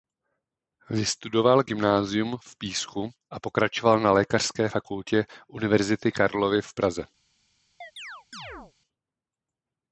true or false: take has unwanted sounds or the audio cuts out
true